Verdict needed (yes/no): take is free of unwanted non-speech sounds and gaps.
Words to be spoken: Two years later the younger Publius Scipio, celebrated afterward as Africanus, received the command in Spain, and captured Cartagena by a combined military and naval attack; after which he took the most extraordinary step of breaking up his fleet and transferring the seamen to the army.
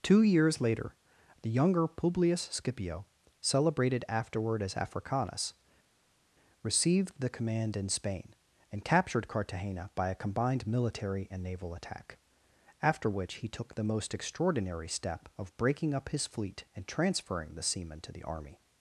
yes